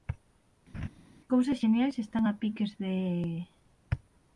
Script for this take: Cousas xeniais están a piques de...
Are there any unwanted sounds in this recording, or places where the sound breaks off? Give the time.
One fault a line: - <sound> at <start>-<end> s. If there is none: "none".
- laugh at 0.7-0.9 s